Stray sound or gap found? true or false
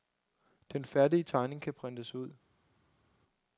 false